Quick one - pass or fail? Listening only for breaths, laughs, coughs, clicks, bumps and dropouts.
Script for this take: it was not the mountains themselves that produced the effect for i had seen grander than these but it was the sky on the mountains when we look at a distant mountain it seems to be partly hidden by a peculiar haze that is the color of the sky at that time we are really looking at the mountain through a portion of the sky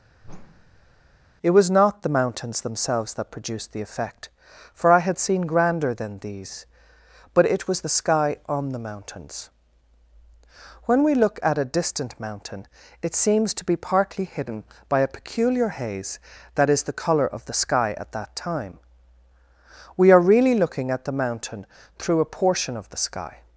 fail